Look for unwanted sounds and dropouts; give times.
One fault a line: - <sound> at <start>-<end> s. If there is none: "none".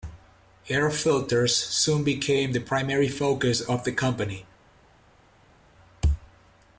none